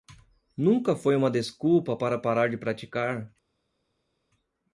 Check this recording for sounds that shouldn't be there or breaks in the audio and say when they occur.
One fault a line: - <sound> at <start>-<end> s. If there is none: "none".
none